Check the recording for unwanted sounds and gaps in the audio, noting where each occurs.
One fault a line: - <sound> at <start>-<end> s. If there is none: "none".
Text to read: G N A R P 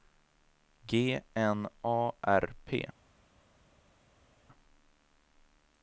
none